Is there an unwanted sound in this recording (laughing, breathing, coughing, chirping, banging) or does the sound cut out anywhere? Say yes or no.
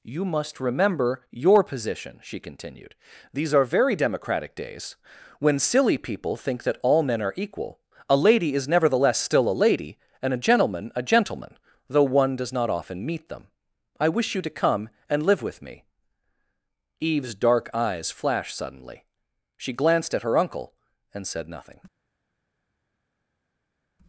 no